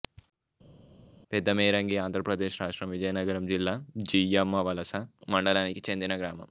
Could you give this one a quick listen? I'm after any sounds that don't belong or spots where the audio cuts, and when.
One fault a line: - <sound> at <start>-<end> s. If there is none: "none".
none